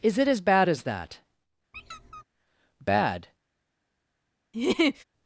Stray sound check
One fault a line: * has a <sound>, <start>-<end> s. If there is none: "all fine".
* has a squeak, 1.7-2.2 s
* has a laugh, 4.5-5.0 s